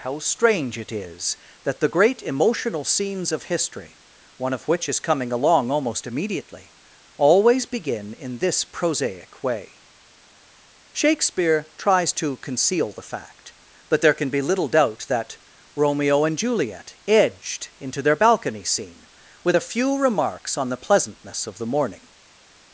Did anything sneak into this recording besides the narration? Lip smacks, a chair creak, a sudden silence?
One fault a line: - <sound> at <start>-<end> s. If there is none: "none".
none